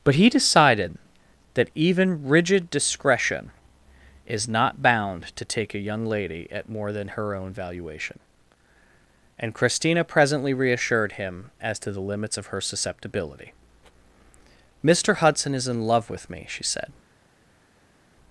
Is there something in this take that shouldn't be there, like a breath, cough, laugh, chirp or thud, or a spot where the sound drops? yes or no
no